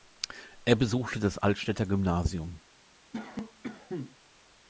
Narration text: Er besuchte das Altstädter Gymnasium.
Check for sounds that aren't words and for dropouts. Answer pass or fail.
fail